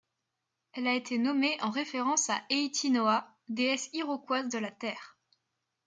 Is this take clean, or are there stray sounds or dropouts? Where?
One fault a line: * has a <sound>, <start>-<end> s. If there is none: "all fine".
all fine